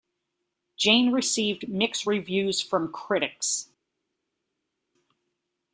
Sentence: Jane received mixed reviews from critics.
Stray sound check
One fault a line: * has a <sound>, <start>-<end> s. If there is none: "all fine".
all fine